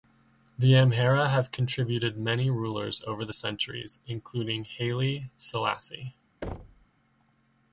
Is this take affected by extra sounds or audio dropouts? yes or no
yes